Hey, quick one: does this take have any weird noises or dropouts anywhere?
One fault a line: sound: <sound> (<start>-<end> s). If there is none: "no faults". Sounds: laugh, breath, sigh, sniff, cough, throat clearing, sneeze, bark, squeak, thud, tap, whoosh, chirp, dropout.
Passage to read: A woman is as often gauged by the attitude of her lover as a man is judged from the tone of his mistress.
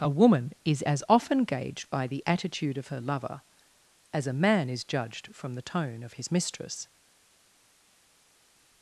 no faults